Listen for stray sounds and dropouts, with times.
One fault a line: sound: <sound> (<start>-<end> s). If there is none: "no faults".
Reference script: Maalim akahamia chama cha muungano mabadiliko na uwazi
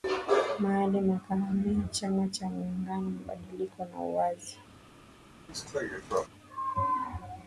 sound: cough (5.5-6.3 s)